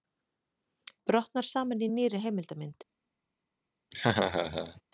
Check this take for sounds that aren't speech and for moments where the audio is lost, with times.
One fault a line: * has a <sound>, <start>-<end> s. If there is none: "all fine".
* has a laugh, 3.9-4.8 s